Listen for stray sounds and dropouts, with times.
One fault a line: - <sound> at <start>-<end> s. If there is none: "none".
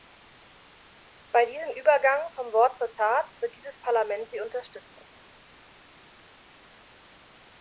none